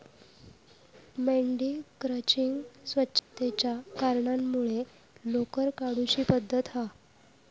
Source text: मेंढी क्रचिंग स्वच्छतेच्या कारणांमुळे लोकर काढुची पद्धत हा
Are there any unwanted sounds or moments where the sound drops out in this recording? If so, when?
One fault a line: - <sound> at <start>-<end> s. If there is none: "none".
- dropout at 3.2-3.3 s